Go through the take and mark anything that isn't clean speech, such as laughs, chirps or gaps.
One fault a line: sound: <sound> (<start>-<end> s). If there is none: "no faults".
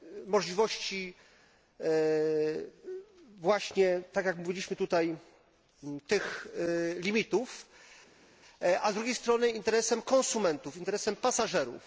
no faults